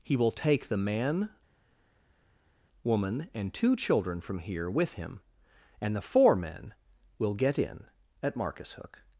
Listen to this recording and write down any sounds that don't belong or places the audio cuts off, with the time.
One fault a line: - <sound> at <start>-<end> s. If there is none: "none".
none